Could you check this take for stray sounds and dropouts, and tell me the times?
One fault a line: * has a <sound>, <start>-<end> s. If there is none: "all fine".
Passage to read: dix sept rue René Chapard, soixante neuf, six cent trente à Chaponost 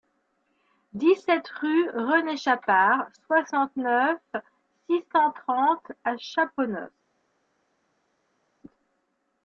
all fine